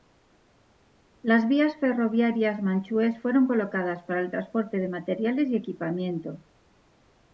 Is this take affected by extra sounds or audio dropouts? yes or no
no